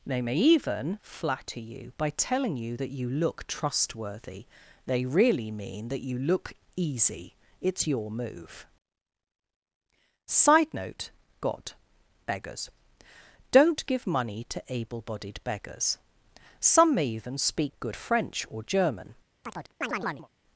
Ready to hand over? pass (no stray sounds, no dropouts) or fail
fail